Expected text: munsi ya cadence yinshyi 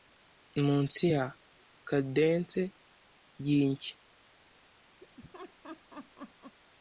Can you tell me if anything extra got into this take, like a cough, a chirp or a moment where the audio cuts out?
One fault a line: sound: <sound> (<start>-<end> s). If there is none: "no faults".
sound: laugh (5.0-6.6 s)